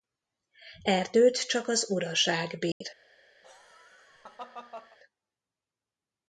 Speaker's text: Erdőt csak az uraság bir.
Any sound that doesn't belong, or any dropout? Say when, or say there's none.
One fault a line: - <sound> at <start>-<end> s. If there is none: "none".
- dropout at 2.7-2.8 s
- laugh at 3.4-5.0 s